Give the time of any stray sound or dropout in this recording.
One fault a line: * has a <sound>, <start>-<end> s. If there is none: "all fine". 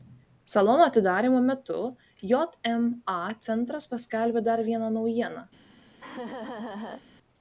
* has a laugh, 6.0-7.0 s